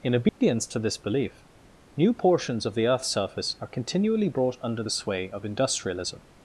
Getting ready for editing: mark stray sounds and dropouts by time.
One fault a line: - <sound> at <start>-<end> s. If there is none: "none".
- dropout at 0.3-0.4 s